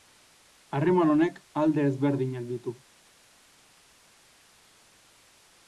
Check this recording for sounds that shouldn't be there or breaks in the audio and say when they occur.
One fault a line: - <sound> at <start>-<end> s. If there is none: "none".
none